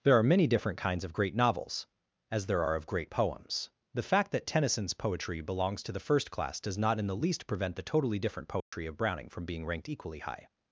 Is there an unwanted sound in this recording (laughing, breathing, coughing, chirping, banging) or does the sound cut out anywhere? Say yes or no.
yes